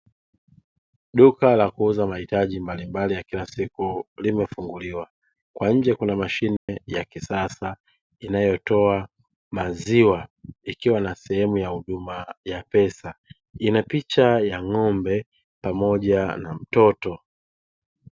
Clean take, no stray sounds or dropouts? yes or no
no